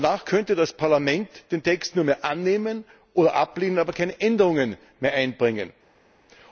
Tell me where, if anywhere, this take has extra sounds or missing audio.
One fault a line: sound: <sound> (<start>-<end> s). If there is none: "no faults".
no faults